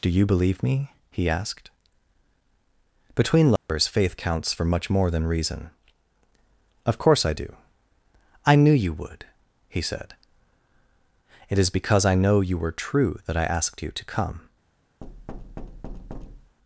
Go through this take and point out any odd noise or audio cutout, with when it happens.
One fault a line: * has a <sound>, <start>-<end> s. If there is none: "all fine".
* has a dropout, 3.6-3.7 s
* has a thud, 15.0-16.6 s